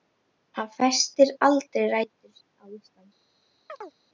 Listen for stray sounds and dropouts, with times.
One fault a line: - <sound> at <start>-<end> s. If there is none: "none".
- chirp at 3.7-3.9 s